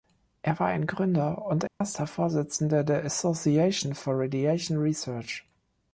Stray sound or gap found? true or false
true